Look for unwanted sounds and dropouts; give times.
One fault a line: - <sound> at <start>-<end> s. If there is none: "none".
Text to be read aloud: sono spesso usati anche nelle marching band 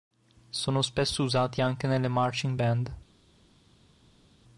none